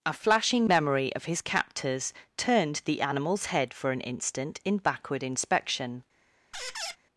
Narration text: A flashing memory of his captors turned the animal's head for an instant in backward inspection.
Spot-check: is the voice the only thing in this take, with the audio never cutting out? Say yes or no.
no